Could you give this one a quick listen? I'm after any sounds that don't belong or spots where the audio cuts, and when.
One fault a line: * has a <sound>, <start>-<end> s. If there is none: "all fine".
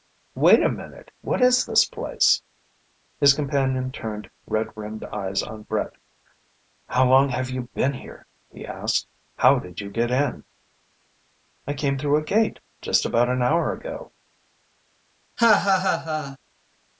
* has a laugh, 15.4-16.4 s